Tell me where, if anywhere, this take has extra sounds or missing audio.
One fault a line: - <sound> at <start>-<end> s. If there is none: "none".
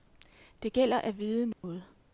- dropout at 1.5-1.6 s